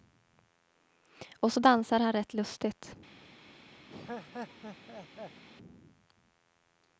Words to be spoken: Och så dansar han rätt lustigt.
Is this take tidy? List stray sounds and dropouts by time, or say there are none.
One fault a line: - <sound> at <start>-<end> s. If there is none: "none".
- laugh at 3.9-5.4 s